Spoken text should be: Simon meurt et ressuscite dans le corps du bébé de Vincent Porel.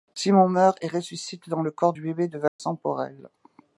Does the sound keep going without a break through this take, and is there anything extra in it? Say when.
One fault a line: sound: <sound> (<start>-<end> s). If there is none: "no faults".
sound: dropout (2.5-2.6 s)